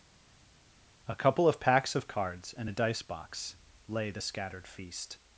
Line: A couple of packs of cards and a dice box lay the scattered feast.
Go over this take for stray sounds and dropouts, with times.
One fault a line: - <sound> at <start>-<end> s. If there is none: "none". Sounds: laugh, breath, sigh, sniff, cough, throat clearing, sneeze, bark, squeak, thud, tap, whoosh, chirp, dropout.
none